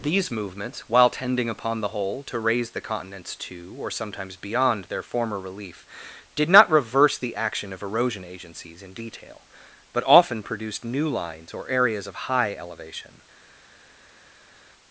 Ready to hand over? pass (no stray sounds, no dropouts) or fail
pass